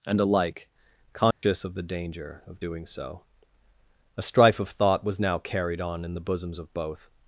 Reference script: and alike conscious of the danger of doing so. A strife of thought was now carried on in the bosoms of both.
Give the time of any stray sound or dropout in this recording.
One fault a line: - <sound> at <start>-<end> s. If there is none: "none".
- dropout at 1.3-1.4 s